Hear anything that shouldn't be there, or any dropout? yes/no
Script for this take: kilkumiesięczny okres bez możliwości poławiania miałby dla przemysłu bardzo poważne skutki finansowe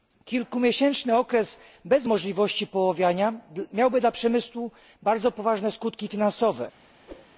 yes